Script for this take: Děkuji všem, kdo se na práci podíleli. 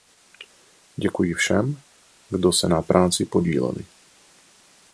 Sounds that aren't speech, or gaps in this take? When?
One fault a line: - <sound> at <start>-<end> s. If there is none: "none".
none